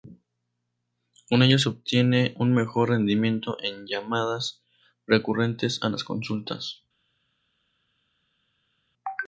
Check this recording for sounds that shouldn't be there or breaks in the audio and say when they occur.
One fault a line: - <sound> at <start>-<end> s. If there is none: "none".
none